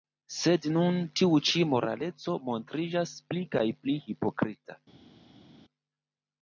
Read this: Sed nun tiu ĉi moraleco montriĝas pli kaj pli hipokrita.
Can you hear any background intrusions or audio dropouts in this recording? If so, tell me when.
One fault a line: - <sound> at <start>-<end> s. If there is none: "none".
none